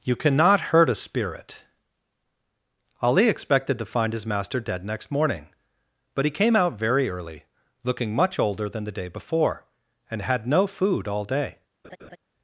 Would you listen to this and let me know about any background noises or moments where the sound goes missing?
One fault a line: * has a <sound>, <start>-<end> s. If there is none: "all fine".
* has a laugh, 11.8-12.2 s